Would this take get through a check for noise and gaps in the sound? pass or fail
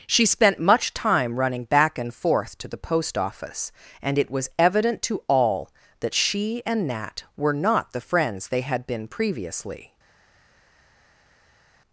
pass